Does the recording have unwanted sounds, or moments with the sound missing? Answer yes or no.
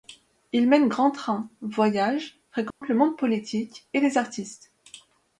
yes